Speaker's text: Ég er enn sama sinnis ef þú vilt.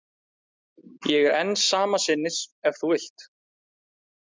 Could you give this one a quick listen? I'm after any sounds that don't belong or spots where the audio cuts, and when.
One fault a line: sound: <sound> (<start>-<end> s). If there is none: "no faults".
no faults